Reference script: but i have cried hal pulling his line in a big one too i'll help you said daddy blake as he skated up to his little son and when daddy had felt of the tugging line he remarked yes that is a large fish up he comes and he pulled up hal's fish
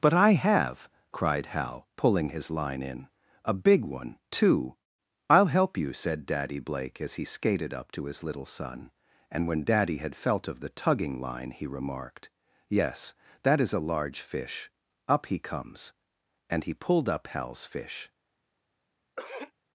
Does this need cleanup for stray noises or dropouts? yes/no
yes